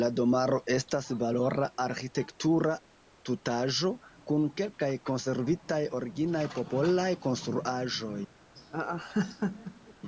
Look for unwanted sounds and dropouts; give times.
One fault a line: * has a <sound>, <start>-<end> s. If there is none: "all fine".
* has a laugh, 8.6-9.9 s